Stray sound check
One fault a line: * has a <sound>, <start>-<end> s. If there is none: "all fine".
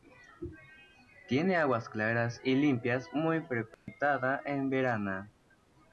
* has a dropout, 3.7-3.9 s